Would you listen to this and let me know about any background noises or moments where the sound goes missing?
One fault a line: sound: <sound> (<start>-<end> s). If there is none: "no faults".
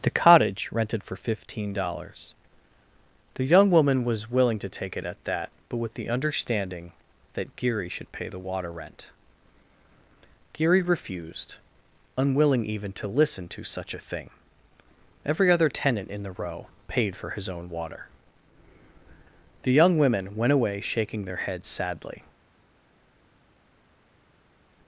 no faults